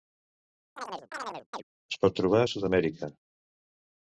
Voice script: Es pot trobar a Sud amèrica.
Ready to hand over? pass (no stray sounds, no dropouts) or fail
fail